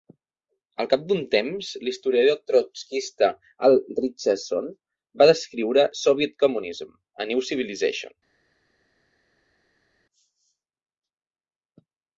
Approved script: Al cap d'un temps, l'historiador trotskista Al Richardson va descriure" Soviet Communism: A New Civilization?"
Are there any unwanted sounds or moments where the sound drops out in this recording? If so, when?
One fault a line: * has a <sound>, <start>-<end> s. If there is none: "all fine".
all fine